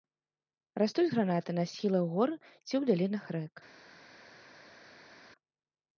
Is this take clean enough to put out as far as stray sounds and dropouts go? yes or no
yes